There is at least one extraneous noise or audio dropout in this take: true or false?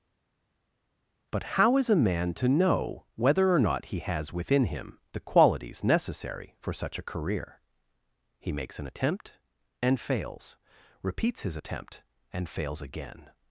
false